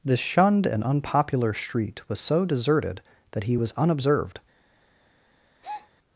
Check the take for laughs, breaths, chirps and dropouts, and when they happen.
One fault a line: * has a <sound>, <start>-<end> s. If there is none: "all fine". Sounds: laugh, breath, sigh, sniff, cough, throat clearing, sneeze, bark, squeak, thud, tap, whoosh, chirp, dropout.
* has a breath, 5.6-5.9 s